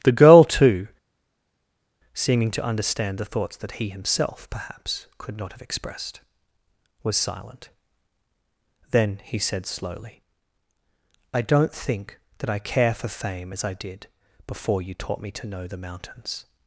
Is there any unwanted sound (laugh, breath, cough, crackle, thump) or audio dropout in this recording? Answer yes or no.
no